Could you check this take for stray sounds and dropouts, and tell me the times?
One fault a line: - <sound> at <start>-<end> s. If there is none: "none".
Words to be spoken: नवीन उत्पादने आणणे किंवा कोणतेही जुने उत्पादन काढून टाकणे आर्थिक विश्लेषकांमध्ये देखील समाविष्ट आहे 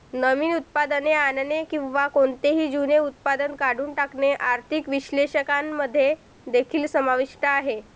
none